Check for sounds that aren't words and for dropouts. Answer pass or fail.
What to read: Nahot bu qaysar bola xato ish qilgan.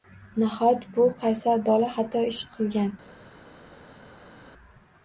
pass